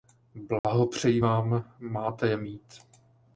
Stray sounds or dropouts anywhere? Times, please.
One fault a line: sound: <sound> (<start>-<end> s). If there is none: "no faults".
sound: dropout (0.6-0.6 s)